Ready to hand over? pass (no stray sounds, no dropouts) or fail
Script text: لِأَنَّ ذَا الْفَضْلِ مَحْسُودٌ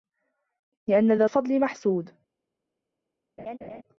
fail